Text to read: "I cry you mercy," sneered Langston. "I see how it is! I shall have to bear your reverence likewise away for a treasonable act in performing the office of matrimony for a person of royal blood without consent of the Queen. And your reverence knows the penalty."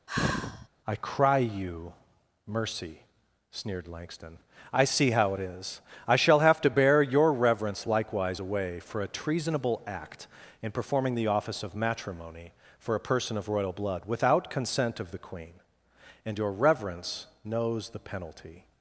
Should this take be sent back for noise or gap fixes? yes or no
yes